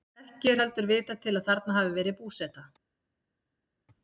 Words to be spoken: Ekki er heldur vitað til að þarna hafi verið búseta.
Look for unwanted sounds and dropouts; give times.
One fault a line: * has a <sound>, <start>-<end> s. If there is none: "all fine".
all fine